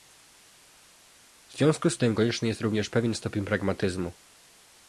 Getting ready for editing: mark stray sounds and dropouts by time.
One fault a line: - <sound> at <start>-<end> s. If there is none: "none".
none